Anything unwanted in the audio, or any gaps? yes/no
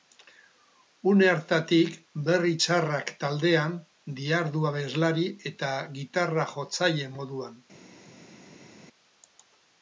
no